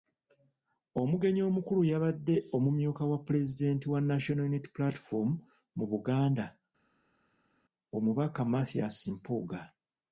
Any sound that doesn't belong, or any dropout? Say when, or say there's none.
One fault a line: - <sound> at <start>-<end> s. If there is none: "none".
none